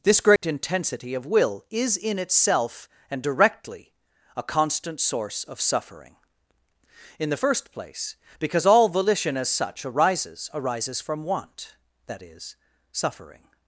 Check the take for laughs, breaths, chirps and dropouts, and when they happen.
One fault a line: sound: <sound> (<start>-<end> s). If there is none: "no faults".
sound: dropout (0.4-0.4 s)